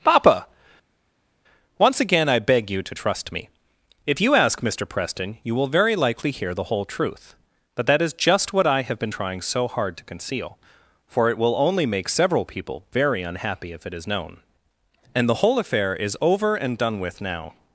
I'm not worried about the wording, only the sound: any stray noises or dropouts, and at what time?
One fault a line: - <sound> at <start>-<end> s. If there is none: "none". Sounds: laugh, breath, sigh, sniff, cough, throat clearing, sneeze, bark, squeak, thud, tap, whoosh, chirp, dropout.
none